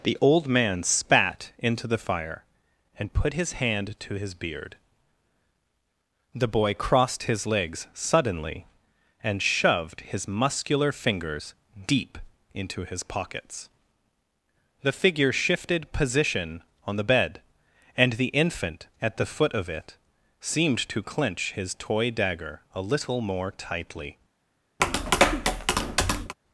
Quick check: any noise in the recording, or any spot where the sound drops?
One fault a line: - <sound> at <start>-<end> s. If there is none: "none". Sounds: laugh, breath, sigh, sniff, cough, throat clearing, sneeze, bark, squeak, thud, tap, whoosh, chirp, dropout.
- tap at 24.8-26.3 s